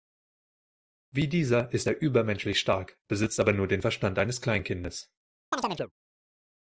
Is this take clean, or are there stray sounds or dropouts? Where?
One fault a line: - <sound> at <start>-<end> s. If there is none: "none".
- chirp at 5.5-5.9 s